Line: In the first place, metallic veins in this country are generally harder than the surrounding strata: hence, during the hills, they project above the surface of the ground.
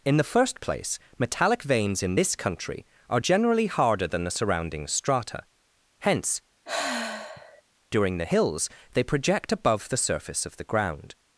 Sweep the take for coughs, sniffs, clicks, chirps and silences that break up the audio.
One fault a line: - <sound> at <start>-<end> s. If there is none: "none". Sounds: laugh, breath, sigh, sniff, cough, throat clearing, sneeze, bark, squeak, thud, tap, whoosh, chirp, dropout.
- sigh at 6.7-7.6 s